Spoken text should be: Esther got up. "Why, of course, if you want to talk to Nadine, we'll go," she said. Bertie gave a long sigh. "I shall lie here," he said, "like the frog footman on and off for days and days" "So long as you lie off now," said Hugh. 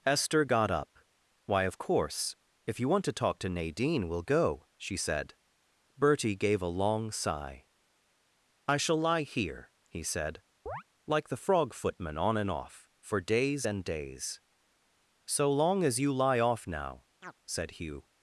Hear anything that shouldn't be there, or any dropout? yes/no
yes